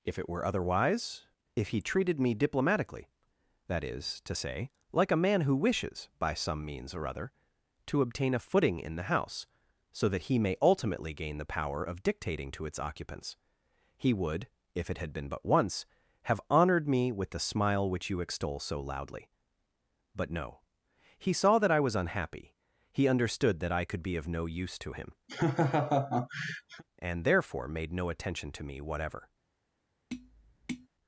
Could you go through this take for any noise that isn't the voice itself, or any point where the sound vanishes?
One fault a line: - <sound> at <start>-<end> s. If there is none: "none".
- laugh at 25.3-26.8 s
- tap at 30.1-30.9 s